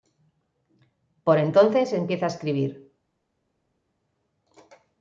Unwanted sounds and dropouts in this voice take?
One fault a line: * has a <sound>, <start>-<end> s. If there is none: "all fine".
all fine